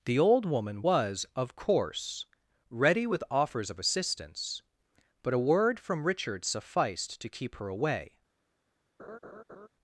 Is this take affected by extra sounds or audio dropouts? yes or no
yes